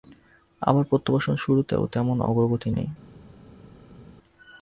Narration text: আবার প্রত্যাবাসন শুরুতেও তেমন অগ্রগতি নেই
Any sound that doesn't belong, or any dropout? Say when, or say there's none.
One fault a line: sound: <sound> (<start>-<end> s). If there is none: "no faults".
no faults